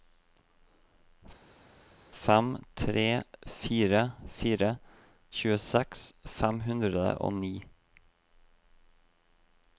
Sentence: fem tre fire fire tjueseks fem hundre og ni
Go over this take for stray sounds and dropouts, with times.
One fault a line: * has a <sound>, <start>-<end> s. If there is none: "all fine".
all fine